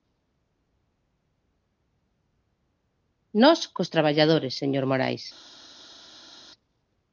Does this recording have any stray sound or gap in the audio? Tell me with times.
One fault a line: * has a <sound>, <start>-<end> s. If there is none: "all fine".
all fine